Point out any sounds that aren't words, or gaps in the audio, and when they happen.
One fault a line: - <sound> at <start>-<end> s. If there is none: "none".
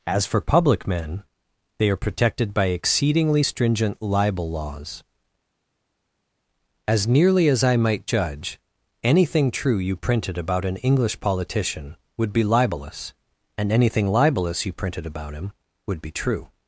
none